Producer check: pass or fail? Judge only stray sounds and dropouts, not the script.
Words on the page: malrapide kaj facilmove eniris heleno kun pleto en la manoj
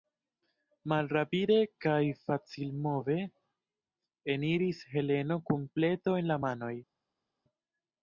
pass